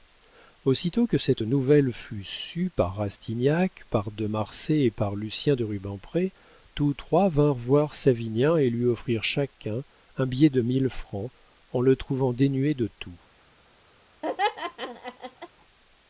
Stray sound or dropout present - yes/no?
yes